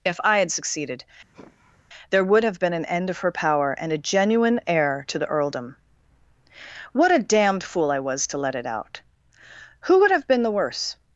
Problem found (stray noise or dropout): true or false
true